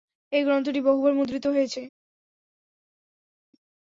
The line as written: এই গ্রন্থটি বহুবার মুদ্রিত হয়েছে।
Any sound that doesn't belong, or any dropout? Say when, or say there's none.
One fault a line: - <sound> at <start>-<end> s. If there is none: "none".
none